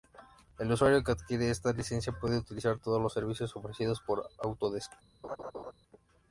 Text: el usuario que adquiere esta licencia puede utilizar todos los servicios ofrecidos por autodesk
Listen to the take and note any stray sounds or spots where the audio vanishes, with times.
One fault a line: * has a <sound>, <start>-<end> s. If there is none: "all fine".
* has a laugh, 5.2-5.7 s